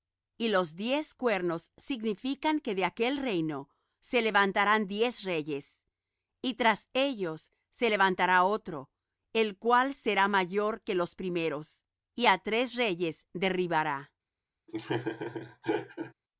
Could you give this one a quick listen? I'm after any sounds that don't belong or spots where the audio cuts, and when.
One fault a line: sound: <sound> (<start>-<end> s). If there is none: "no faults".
sound: laugh (14.7-16.1 s)